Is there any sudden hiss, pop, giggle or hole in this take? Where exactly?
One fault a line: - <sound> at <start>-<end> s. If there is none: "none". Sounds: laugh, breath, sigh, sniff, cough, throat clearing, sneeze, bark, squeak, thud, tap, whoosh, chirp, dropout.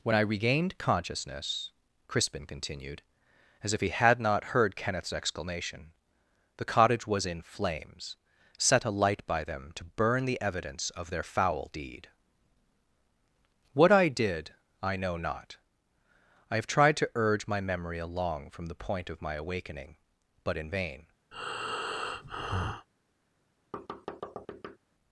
- breath at 21.3-22.9 s
- thud at 23.7-24.8 s